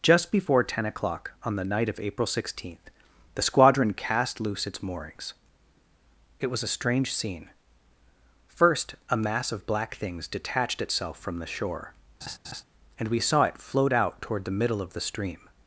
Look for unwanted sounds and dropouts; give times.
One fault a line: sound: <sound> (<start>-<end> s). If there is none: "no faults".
sound: laugh (12.2-12.6 s)